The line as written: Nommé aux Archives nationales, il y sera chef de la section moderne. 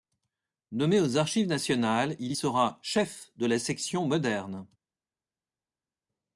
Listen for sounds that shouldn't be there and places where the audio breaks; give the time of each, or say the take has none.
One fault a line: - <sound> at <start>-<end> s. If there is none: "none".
none